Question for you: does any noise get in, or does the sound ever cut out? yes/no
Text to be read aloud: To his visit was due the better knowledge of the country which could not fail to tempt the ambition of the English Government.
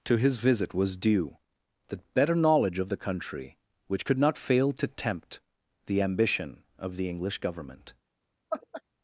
yes